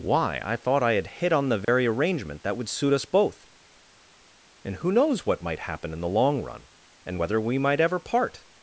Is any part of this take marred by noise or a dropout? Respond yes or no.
yes